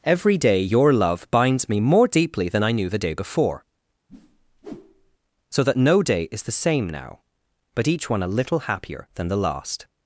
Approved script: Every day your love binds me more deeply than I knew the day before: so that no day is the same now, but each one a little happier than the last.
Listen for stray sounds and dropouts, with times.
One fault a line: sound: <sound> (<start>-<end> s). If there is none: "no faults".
sound: whoosh (4.1-5.2 s)